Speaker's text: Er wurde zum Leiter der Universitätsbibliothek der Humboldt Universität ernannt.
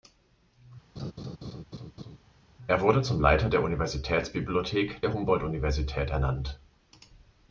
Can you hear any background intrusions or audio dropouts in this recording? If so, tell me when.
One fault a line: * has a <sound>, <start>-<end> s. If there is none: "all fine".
* has a laugh, 1.0-2.2 s